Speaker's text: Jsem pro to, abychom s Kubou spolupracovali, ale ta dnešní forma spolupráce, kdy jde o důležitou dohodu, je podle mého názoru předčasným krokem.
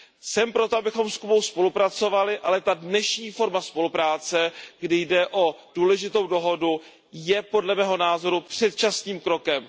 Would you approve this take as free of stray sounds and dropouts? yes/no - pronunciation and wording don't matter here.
yes